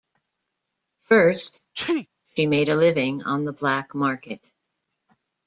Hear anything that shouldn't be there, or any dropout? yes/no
yes